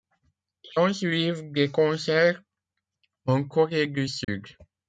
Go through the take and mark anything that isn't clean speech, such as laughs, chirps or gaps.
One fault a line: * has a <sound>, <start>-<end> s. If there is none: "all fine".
* has a dropout, 4.2-4.3 s